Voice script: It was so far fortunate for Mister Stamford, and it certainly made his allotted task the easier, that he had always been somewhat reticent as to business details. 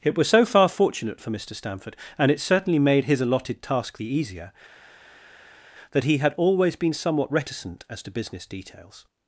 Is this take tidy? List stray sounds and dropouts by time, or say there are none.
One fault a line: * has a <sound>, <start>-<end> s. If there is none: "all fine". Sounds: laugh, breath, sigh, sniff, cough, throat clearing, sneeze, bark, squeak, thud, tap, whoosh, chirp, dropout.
all fine